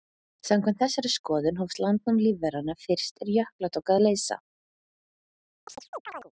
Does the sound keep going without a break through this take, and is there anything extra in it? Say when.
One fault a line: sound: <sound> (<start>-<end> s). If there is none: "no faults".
sound: chirp (5.7-6.3 s)